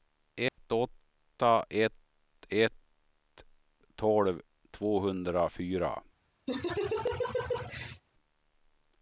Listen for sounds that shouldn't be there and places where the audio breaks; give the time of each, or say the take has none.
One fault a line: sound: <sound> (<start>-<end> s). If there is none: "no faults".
sound: dropout (0.5-0.6 s)
sound: laugh (6.5-8.0 s)